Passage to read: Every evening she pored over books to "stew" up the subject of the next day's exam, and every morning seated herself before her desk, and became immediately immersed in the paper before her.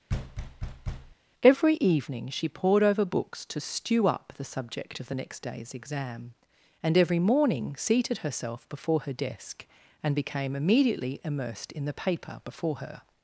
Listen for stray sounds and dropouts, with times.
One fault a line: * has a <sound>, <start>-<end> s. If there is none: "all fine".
* has a thud, 0.1-1.2 s